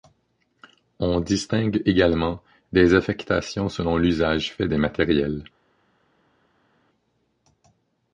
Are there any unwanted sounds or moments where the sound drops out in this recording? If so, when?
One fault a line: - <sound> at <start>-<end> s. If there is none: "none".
none